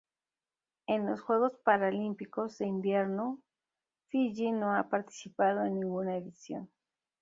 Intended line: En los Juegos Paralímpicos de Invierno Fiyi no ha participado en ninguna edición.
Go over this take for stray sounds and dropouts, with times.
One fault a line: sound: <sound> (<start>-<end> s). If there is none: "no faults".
no faults